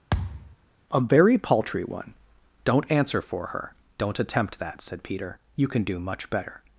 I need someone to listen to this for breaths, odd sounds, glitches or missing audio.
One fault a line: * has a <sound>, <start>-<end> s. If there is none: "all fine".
* has a thud, 0.1-0.6 s